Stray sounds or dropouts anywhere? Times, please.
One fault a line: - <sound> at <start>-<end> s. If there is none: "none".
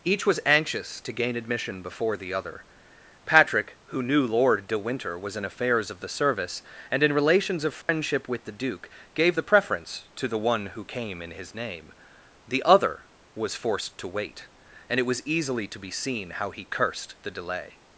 - dropout at 7.8-7.9 s